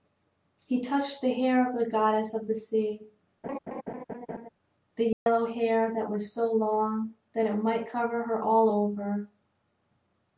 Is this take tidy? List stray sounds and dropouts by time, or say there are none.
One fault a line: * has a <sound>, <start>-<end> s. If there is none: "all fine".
* has a laugh, 3.4-4.5 s
* has a dropout, 5.1-5.3 s